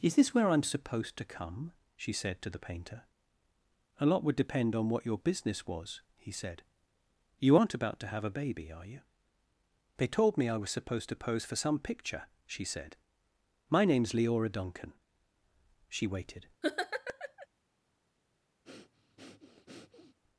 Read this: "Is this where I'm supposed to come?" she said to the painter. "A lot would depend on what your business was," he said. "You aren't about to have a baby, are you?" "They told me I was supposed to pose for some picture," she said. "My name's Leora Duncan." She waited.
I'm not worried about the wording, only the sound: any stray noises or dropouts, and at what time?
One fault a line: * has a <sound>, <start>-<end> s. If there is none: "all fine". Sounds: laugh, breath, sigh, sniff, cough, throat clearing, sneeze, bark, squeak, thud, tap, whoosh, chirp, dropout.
* has a laugh, 16.6-17.5 s
* has a breath, 18.6-20.2 s